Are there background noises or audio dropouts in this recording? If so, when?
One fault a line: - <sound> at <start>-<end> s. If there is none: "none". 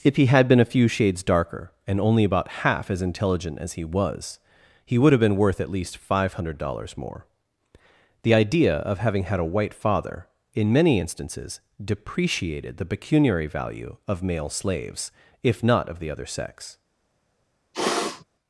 - sniff at 17.7-18.2 s